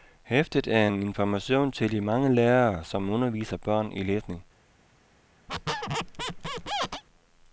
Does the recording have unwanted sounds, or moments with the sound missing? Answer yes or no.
yes